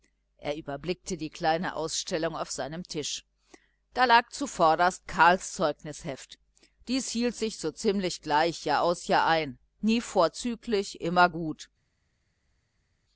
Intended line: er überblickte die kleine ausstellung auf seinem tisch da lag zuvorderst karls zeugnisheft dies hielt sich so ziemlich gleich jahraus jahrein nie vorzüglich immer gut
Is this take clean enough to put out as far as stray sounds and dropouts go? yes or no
yes